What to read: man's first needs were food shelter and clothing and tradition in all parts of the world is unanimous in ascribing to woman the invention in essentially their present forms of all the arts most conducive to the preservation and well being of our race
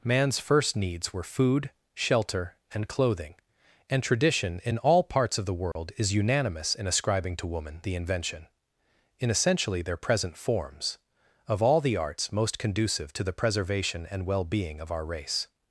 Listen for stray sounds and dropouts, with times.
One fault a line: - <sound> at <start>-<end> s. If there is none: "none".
- dropout at 5.7-5.8 s